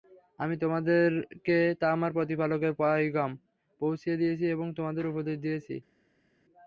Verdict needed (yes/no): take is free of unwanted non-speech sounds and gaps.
yes